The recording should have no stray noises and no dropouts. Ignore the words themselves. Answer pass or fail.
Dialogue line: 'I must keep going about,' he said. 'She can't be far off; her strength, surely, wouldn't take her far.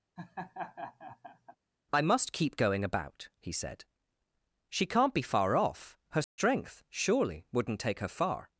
fail